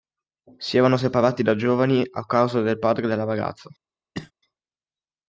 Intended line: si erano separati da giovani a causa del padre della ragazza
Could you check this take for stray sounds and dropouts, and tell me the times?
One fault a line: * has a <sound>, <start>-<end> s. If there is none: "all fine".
* has a cough, 4.1-4.3 s